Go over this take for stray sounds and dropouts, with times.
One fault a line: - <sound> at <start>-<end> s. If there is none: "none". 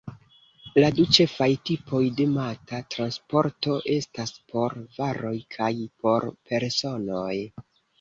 none